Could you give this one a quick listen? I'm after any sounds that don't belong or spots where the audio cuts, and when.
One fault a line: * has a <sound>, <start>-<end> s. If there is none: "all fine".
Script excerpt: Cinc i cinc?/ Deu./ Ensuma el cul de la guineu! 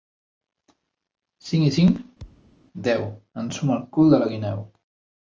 * has a thud, 2.2-2.6 s